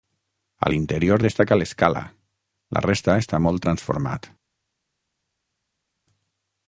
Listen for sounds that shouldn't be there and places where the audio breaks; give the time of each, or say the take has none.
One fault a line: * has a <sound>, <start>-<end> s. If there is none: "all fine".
all fine